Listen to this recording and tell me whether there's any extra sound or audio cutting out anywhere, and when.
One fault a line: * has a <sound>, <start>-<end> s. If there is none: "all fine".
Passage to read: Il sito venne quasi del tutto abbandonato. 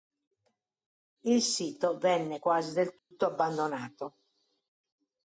* has a dropout, 3.0-3.1 s